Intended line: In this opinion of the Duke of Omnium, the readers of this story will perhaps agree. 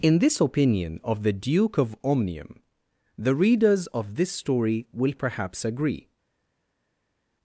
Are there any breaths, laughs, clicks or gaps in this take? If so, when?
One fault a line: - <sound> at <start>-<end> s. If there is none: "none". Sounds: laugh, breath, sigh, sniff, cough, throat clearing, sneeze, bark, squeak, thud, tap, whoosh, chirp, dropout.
none